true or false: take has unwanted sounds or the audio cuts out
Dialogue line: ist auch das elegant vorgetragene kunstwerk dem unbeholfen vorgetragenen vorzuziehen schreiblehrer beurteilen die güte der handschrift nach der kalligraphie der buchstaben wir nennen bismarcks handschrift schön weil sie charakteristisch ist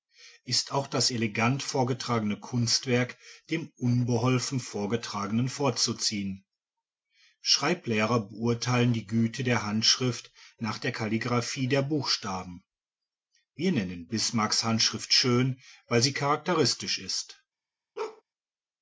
true